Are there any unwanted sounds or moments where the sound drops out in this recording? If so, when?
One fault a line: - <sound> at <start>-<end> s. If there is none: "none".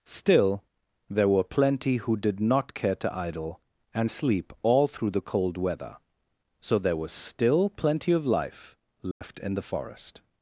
- dropout at 9.1-9.2 s